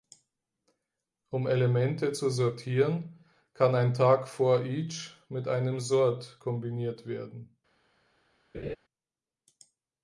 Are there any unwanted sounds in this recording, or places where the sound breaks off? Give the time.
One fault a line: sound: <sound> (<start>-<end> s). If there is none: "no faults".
sound: laugh (8.5-8.8 s)